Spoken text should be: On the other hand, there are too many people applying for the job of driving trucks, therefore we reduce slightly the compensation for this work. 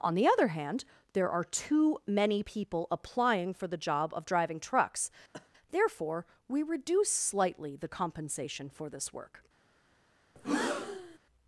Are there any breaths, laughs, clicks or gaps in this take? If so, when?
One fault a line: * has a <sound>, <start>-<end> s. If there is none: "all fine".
* has a cough, 5.3-5.5 s
* has a breath, 10.4-11.2 s